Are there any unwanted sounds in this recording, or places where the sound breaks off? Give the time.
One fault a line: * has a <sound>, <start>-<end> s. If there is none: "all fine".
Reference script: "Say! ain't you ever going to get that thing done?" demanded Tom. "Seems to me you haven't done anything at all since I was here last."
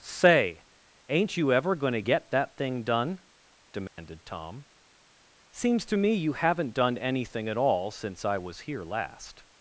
* has a dropout, 3.9-4.0 s